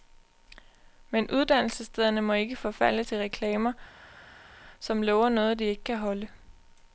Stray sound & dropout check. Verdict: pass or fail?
pass